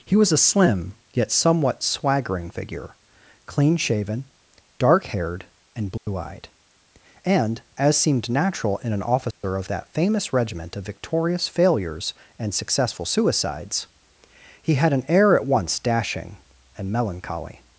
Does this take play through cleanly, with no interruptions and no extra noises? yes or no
no